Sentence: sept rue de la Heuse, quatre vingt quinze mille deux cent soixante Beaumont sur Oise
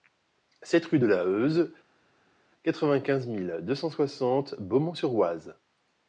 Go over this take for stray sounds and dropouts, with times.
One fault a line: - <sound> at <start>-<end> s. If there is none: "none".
none